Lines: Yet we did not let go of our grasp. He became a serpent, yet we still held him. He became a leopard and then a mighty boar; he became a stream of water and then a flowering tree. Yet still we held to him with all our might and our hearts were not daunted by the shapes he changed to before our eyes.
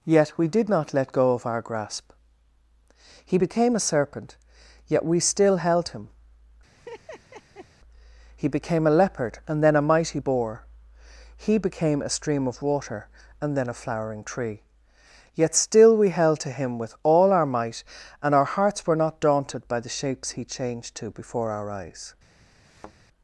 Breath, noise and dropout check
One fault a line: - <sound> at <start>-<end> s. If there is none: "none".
- laugh at 6.7-7.7 s
- thud at 22.6-23.0 s